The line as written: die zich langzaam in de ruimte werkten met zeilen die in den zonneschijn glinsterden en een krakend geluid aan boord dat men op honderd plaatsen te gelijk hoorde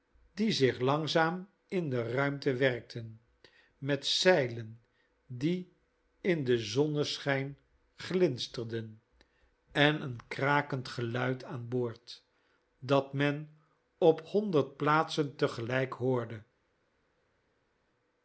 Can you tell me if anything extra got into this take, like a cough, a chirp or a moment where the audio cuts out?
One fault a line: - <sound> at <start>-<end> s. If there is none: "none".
none